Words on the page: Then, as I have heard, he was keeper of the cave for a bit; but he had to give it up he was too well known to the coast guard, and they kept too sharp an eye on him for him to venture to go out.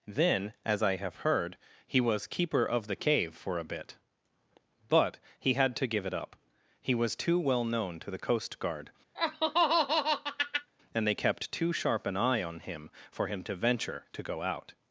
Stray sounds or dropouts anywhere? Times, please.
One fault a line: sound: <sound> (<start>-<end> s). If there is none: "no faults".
sound: laugh (9.1-10.7 s)